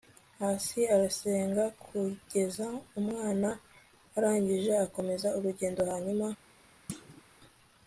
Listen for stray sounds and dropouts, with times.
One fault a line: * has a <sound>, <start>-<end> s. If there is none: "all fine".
* has a thud, 6.9-7.2 s